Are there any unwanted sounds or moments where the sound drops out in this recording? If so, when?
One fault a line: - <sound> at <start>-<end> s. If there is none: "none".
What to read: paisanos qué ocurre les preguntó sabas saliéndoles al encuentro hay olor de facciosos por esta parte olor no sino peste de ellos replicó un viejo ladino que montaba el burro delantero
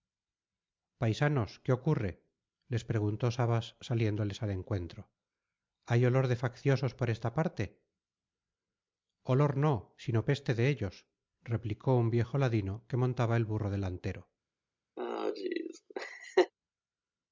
- laugh at 15.0-16.5 s